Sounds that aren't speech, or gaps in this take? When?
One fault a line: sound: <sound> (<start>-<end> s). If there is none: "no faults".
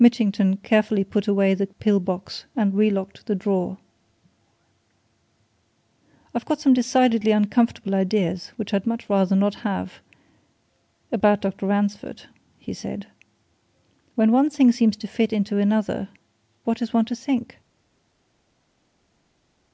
no faults